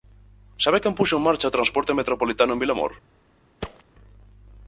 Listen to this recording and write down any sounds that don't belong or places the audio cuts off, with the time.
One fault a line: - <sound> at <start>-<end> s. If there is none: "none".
- thud at 3.6-3.8 s